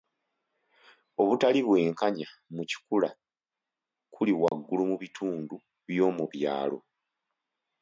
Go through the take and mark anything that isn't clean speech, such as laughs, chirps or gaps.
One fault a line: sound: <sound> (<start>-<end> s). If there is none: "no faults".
sound: dropout (4.5-4.5 s)